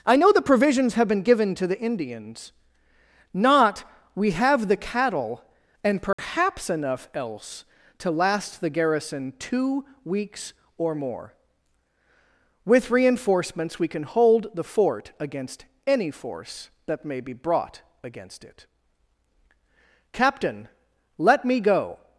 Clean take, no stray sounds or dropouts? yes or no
no